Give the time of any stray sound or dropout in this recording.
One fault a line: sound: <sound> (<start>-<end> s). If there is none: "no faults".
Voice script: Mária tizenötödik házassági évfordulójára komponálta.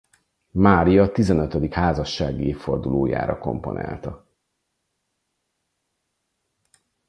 no faults